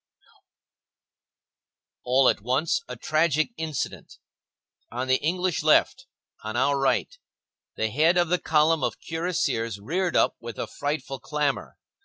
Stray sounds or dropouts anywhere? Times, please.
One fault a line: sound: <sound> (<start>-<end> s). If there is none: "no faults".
no faults